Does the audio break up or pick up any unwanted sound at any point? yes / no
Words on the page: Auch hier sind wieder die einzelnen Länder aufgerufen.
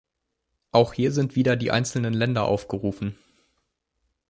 no